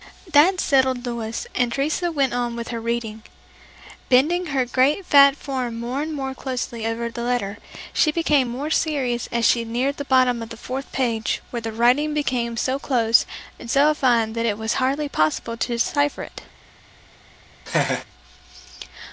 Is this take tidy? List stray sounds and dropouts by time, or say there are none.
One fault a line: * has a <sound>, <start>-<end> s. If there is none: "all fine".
* has a laugh, 17.7-18.0 s